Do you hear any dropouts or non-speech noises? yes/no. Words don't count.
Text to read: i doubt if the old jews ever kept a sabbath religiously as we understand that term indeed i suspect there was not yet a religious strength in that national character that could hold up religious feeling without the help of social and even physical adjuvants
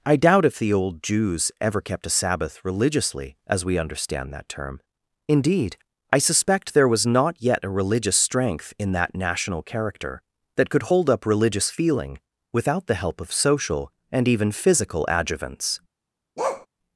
yes